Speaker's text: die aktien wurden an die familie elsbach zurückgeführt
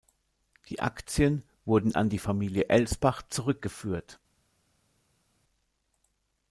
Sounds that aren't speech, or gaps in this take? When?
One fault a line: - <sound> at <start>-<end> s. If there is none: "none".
none